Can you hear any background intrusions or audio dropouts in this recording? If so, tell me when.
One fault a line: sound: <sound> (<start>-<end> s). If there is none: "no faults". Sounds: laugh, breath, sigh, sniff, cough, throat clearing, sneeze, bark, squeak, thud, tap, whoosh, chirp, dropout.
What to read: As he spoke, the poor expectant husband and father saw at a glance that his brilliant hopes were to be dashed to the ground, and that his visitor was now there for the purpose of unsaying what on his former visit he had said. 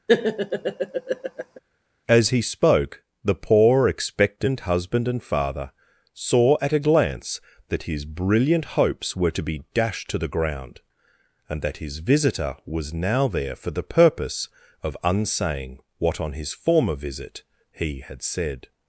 sound: laugh (0.1-1.6 s)